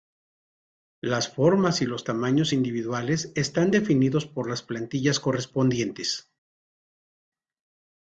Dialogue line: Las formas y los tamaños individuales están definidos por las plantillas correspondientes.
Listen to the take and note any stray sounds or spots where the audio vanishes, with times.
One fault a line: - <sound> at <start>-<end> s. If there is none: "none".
none